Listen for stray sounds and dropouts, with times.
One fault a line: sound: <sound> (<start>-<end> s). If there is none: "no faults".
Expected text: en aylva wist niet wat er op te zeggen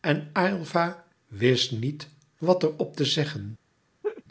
sound: laugh (4.0-4.2 s)